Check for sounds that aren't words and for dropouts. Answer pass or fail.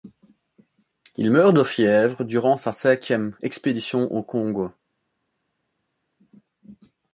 pass